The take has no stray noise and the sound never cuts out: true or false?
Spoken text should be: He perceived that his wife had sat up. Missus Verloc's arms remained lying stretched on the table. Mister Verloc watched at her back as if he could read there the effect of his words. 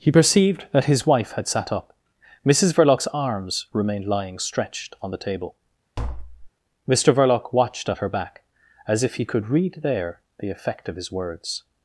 false